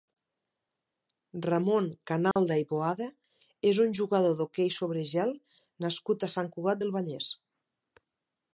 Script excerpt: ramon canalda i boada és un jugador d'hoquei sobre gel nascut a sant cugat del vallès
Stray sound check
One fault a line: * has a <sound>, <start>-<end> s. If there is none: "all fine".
* has a dropout, 2.3-2.4 s